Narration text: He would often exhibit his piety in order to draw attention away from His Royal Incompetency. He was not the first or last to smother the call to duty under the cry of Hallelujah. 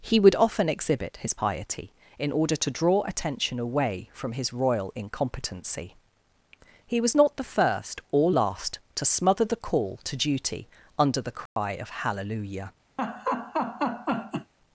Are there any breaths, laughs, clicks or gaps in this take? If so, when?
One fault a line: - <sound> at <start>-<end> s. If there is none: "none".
- dropout at 11.5-11.6 s
- laugh at 13.0-14.5 s